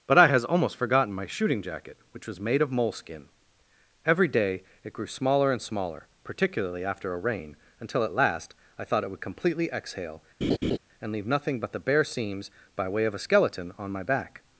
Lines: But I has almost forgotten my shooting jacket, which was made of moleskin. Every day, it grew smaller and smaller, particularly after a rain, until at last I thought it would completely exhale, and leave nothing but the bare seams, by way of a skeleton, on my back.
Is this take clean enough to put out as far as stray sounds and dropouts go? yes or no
no